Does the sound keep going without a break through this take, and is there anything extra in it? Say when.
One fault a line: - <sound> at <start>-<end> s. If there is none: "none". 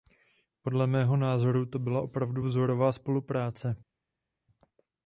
none